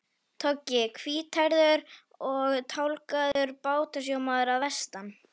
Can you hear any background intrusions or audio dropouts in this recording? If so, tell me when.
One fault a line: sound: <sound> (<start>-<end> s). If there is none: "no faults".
sound: dropout (3.3-3.4 s)